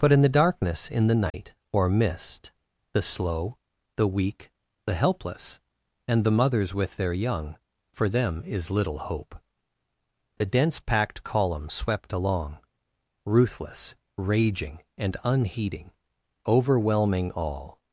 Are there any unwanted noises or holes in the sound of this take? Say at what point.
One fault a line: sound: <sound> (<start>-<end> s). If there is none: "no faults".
sound: dropout (1.3-1.3 s)